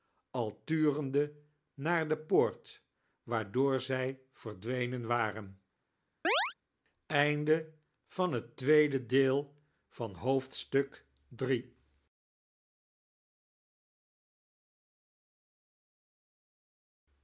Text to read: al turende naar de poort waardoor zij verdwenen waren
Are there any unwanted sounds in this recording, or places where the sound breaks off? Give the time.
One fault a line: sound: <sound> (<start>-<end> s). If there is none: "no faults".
sound: chirp (6.2-6.5 s)